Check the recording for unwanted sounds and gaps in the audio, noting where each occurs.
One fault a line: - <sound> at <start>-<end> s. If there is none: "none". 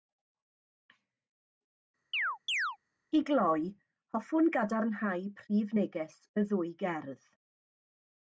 - chirp at 2.1-2.8 s